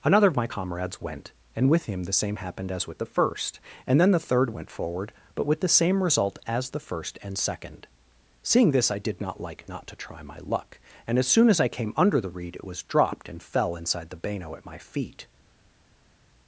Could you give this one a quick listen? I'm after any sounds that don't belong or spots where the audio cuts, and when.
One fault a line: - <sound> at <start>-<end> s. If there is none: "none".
none